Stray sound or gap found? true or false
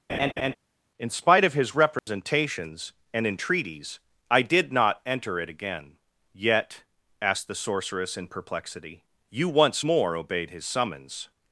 true